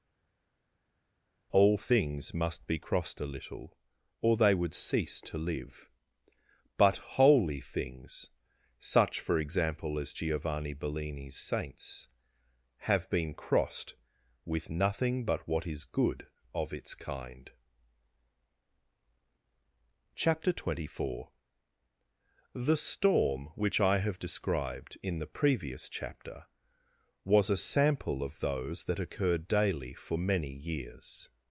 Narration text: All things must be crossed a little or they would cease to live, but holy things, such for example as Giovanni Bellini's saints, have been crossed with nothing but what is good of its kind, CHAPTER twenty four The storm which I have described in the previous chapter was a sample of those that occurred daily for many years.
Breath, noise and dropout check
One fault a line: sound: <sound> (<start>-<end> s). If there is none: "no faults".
no faults